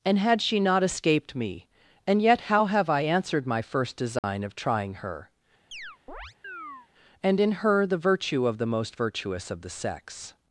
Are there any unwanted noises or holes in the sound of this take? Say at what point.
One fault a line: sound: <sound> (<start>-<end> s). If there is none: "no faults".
sound: dropout (4.2-4.2 s)
sound: chirp (5.7-6.9 s)